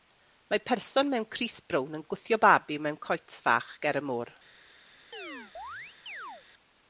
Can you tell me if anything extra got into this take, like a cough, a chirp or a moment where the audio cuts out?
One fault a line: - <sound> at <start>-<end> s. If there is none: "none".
- chirp at 5.1-6.4 s